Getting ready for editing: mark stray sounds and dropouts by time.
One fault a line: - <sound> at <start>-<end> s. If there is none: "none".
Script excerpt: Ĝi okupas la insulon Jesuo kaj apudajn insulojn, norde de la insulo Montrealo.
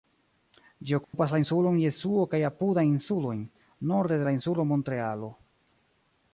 - dropout at 1.0-1.1 s